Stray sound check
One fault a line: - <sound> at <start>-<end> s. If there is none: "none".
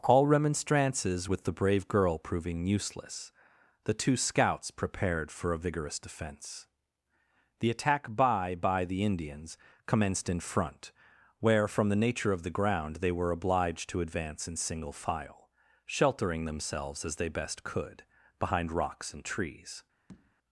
- tap at 20.1-20.4 s